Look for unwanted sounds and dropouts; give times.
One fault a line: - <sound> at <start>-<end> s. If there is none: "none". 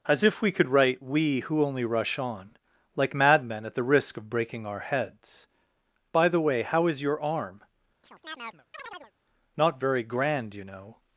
- chirp at 8.0-9.1 s